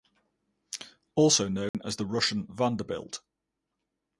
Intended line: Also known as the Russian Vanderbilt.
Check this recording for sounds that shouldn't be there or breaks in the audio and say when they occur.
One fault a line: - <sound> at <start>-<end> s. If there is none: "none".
- dropout at 1.7-1.7 s